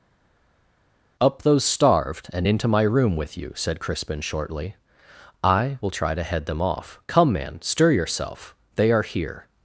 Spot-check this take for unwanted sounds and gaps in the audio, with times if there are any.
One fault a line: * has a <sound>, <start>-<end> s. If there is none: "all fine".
all fine